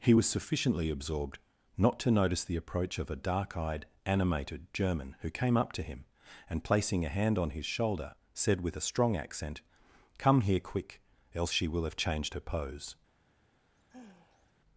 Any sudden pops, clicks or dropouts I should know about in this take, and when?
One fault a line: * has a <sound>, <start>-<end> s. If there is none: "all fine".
* has a sigh, 13.6-14.5 s